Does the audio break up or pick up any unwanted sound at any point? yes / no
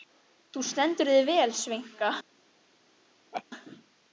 yes